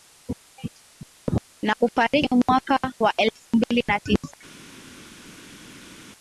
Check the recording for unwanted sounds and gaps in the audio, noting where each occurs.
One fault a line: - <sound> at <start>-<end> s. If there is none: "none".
none